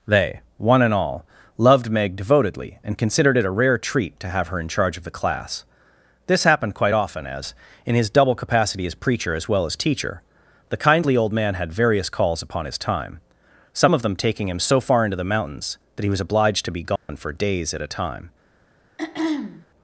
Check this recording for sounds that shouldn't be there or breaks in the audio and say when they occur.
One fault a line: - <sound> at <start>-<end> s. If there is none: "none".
- dropout at 17.0-17.1 s
- throat clearing at 19.0-19.7 s